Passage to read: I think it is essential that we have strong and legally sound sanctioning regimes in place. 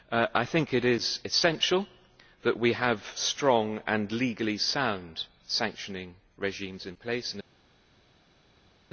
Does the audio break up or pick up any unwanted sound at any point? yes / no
no